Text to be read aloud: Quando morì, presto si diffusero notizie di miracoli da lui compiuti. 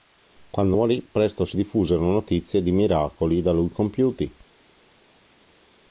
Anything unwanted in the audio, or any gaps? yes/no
no